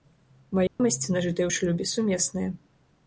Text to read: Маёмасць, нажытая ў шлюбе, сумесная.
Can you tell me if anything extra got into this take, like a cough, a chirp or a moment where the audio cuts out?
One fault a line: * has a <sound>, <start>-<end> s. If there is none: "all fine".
* has a dropout, 0.7-0.8 s